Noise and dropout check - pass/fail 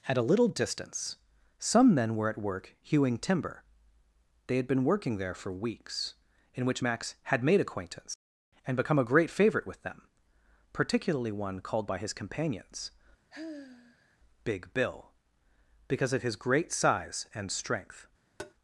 fail